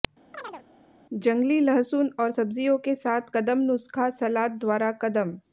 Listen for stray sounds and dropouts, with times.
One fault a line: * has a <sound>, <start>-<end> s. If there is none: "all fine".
* has a chirp, 0.3-0.7 s